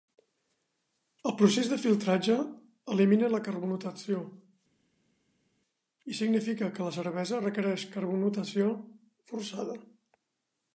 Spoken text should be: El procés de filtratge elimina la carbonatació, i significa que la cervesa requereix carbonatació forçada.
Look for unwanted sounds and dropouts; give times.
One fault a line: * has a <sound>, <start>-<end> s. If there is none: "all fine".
all fine